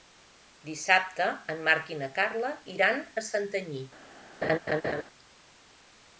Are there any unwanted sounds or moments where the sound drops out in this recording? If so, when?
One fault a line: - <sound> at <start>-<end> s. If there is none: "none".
- laugh at 4.4-5.0 s